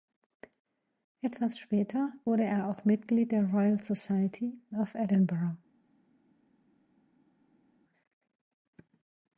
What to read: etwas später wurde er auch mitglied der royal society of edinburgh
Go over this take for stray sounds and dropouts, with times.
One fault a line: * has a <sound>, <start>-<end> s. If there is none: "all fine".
all fine